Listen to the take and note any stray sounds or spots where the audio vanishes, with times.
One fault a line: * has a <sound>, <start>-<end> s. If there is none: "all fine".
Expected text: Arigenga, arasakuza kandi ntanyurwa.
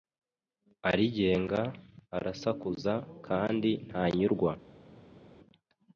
all fine